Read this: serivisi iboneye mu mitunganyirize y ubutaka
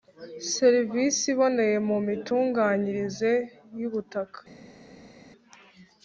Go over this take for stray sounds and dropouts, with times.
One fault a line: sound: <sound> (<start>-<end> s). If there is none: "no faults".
no faults